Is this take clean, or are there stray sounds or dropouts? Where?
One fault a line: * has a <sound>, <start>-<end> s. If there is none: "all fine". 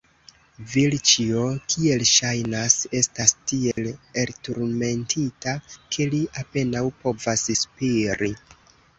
* has a dropout, 3.7-3.8 s